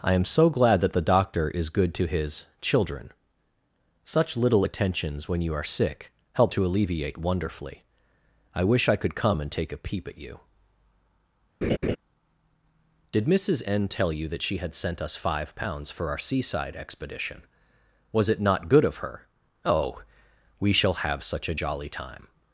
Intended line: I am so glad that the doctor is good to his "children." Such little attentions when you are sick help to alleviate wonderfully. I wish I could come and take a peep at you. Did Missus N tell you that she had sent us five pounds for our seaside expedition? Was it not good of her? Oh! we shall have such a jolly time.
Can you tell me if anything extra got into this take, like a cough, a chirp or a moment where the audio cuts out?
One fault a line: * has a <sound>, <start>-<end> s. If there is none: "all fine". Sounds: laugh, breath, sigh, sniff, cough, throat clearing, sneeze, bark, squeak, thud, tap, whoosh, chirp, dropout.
* has a laugh, 11.6-12.0 s